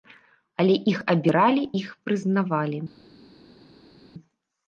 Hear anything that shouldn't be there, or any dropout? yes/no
no